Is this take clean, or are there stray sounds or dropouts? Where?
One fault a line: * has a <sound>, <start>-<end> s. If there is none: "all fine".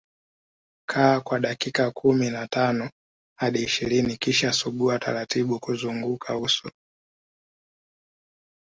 all fine